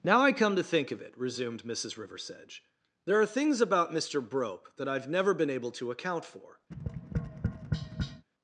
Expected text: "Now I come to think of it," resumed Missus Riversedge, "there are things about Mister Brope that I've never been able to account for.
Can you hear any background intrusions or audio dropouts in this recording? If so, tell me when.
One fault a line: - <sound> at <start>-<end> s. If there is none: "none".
- tap at 6.7-8.3 s